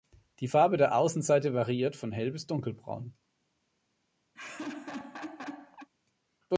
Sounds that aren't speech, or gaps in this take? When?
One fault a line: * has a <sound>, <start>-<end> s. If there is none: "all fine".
* has a laugh, 4.3-5.9 s